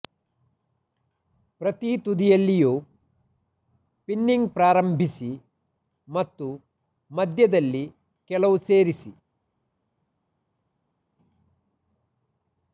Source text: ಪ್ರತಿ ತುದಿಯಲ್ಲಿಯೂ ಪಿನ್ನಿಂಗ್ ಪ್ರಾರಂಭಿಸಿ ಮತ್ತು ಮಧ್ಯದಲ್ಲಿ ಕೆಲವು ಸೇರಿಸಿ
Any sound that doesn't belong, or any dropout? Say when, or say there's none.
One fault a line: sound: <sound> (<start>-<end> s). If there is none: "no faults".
no faults